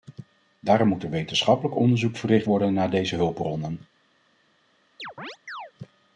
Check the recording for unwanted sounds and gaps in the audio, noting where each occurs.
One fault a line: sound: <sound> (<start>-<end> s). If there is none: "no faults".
sound: chirp (5.0-5.7 s)